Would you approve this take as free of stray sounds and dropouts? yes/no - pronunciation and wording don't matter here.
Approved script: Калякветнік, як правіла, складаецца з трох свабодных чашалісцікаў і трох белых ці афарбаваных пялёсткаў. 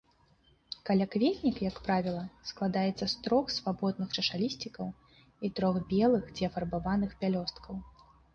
yes